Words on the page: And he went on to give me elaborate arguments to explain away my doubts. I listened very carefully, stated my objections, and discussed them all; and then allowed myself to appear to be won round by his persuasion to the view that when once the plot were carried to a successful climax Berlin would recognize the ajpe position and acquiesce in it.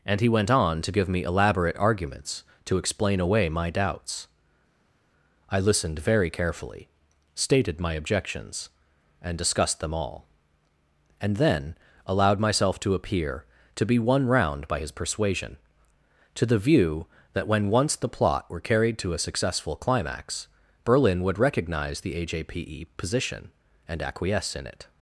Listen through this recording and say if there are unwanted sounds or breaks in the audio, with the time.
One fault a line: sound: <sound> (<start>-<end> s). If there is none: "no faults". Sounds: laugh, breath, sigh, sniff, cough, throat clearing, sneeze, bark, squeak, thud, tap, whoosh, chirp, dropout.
no faults